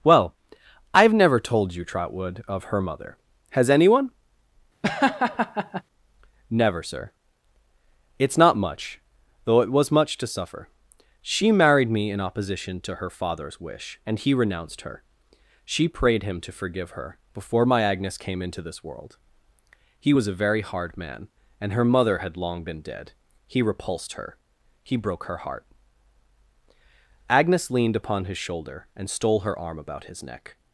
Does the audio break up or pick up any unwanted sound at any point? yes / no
yes